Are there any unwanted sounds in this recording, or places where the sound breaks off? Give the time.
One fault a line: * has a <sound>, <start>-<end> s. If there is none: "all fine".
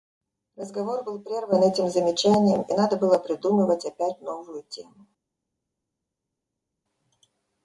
all fine